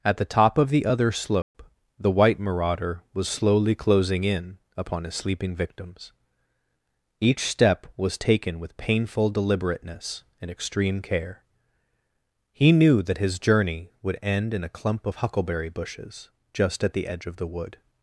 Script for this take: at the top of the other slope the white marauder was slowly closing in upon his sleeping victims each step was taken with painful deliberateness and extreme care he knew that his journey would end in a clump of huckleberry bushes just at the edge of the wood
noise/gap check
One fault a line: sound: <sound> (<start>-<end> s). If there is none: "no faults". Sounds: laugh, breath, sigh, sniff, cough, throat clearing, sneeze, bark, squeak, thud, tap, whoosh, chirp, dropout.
sound: dropout (1.4-1.5 s)